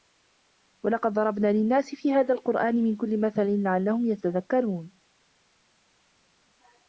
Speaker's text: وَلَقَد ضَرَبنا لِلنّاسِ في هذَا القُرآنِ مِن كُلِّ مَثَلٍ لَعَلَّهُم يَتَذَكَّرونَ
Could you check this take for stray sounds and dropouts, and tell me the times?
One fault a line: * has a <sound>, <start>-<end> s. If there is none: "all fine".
all fine